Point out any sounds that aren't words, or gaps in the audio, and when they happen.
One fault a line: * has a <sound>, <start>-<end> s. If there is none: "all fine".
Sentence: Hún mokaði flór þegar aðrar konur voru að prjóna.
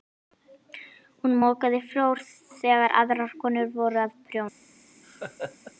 * has a laugh, 5.0-5.7 s